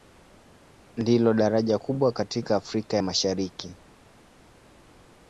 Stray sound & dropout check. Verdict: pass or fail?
pass